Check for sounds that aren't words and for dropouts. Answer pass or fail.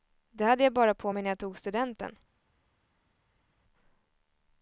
pass